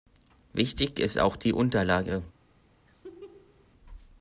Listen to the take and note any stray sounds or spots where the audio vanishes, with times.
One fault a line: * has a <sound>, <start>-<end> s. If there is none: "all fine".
* has a laugh, 2.9-3.7 s